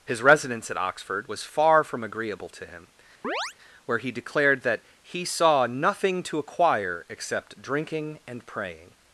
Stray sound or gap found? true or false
true